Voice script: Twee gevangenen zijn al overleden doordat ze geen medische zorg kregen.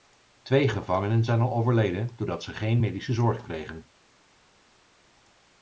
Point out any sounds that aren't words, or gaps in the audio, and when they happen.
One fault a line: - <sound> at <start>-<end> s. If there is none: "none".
none